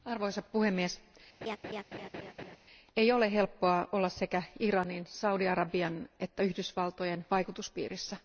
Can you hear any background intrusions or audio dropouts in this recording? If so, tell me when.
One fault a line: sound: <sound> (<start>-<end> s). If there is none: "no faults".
sound: laugh (1.4-2.6 s)